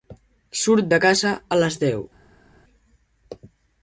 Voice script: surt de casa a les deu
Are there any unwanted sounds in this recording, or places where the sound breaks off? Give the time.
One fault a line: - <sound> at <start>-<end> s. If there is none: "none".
none